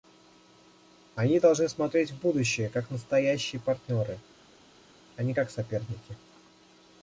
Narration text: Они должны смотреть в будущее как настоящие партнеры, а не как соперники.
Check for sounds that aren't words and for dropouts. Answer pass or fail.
pass